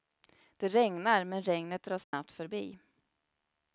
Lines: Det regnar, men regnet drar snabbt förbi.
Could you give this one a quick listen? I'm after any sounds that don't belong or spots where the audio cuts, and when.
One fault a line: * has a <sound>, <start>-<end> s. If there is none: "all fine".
* has a dropout, 2.0-2.1 s